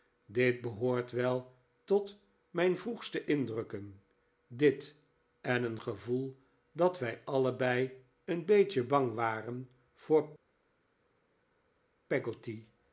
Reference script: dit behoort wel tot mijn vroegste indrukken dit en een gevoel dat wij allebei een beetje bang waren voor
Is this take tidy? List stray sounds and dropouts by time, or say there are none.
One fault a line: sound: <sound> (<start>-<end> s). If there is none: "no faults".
no faults